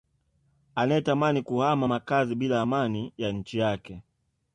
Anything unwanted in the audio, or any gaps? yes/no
no